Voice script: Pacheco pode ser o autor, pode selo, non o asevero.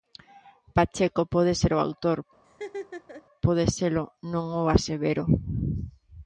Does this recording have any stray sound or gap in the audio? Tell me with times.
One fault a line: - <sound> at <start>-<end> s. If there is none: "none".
- laugh at 2.4-3.3 s